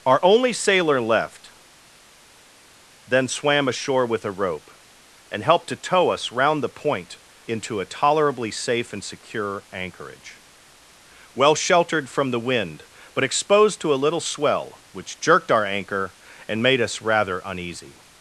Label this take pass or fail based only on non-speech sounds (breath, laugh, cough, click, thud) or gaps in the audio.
pass